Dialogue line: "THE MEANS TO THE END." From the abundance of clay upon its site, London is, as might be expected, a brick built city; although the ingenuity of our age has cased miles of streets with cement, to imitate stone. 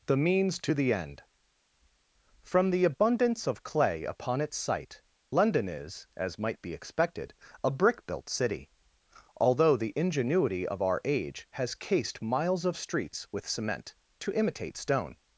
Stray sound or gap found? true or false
false